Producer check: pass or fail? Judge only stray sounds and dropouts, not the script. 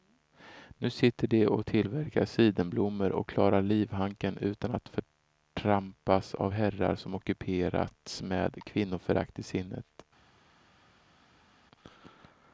pass